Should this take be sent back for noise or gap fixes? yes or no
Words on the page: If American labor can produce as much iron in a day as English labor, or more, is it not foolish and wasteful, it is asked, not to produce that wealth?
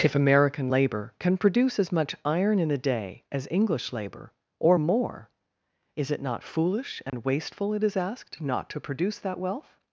yes